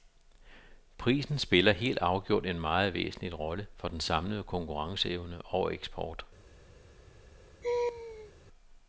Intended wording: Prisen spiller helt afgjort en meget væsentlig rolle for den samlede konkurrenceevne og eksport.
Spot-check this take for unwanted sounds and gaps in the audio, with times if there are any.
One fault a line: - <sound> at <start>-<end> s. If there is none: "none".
- laugh at 7.6-8.3 s